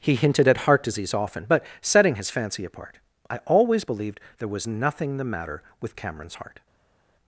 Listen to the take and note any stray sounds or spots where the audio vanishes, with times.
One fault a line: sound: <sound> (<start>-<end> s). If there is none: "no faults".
no faults